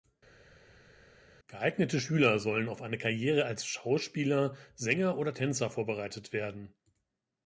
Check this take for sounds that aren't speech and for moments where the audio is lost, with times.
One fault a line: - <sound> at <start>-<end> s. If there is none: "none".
none